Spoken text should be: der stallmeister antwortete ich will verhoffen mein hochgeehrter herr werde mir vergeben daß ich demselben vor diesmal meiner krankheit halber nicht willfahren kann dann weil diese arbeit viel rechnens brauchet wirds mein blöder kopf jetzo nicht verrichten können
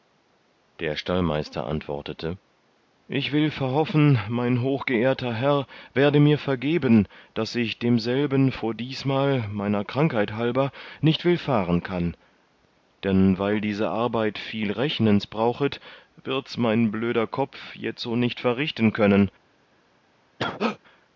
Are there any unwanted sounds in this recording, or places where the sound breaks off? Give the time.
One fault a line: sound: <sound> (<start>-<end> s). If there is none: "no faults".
sound: cough (20.4-20.8 s)